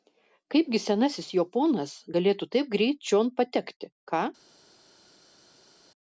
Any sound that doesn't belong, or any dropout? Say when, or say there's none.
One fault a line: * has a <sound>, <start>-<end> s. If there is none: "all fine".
all fine